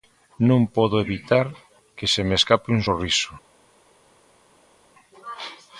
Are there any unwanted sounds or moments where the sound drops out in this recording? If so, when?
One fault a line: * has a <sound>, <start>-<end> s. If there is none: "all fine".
all fine